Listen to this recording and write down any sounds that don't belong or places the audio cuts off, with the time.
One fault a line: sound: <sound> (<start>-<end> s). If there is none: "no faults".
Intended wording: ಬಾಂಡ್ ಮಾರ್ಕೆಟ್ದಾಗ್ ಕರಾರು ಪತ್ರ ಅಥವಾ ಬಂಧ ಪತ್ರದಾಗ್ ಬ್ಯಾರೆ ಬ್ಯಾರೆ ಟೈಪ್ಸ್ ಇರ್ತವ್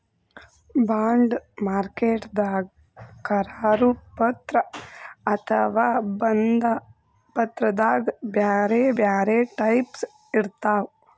no faults